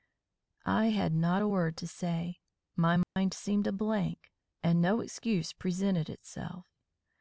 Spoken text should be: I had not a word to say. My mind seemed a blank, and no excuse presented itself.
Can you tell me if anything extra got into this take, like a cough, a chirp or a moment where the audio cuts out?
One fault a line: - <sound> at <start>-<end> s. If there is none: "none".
- dropout at 3.0-3.2 s